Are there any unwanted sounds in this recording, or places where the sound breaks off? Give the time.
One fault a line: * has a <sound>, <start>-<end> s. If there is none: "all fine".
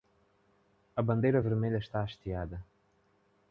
all fine